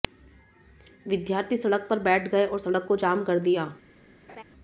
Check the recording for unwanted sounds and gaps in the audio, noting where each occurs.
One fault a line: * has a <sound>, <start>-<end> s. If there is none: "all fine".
* has a laugh, 4.3-4.4 s